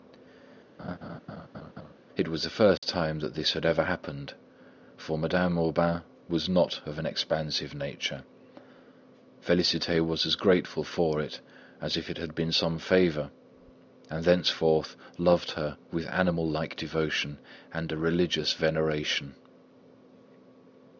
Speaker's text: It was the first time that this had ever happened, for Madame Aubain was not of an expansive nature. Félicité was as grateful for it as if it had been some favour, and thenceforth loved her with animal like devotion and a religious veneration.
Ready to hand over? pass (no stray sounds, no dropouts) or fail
fail